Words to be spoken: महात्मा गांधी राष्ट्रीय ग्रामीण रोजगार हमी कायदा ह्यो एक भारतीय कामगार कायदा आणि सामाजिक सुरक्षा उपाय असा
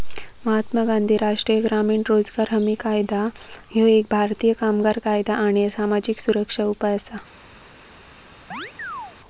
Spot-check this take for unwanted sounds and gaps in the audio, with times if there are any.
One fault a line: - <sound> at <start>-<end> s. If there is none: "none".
- chirp at 8.5-9.2 s